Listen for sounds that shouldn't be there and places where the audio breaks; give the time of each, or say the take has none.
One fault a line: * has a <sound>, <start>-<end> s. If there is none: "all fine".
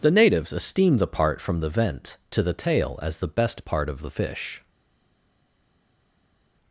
all fine